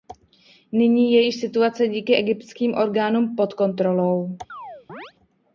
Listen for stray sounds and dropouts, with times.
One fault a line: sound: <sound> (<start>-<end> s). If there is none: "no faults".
sound: chirp (4.5-5.1 s)